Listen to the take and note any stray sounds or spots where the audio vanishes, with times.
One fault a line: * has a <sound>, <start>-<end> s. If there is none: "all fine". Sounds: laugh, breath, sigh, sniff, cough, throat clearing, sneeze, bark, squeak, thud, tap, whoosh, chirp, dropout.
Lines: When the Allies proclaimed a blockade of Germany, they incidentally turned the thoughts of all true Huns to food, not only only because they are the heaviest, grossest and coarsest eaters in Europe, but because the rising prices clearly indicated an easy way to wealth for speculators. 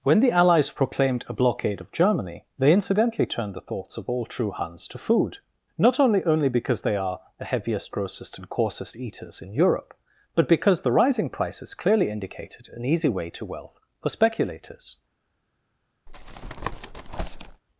* has a tap, 16.1-17.6 s